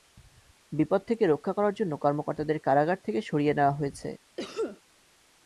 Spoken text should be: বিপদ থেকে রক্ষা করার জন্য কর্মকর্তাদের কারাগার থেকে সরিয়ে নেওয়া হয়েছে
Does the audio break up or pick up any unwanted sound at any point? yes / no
yes